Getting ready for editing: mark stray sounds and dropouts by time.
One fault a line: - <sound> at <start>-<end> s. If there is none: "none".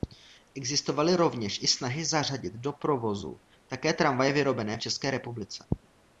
none